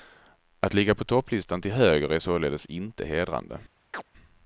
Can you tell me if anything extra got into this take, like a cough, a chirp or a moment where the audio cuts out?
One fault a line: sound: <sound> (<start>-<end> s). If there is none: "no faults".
sound: chirp (3.9-4.0 s)